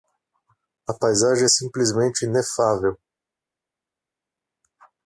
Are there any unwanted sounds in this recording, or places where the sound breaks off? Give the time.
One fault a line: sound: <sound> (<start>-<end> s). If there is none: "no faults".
no faults